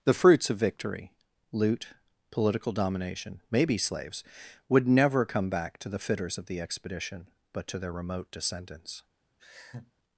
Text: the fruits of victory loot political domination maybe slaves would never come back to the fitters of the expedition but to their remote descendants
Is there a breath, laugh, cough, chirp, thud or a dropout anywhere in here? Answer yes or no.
yes